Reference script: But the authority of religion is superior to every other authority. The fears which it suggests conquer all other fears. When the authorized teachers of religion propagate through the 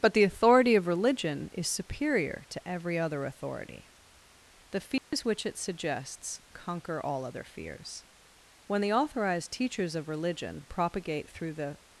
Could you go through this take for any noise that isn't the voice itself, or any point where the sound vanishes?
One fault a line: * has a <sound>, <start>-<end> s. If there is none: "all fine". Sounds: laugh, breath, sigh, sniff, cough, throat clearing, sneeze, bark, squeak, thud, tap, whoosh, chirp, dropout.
* has a dropout, 5.0-5.1 s